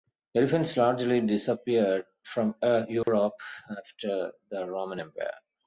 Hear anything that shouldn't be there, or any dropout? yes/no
yes